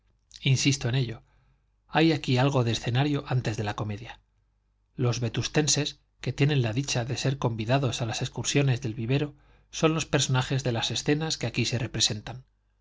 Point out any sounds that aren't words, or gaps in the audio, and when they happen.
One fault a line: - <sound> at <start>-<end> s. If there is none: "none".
none